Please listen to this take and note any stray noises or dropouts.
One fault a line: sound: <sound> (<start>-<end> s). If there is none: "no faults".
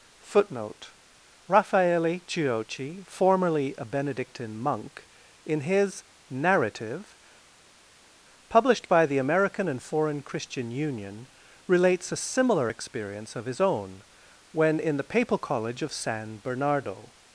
no faults